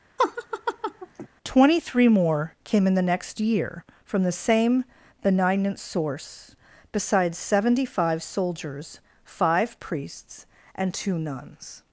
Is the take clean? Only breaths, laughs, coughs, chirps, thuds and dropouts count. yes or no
no